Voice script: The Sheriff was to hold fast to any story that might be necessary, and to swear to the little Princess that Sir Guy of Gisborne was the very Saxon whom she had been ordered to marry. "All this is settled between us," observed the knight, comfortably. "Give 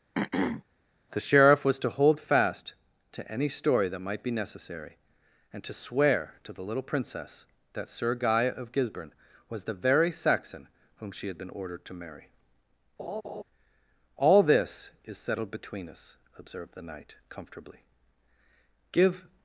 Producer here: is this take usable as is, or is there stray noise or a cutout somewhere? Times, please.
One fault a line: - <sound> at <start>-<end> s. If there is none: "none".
- throat clearing at 0.1-0.6 s
- laugh at 13.0-13.4 s